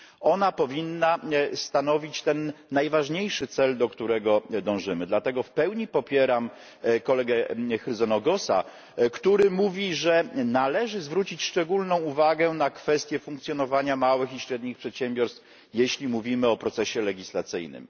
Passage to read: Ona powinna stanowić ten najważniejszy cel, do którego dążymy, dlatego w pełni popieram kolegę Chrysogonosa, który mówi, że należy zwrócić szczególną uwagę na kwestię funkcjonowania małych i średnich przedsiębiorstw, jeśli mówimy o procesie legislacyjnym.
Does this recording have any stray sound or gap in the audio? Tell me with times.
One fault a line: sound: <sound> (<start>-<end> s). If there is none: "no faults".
no faults